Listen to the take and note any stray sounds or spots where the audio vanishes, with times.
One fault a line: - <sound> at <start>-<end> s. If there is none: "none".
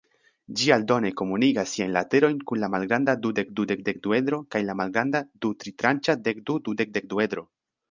none